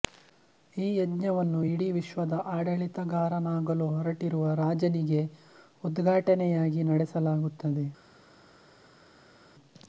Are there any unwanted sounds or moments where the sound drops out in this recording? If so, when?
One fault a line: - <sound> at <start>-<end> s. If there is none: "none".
none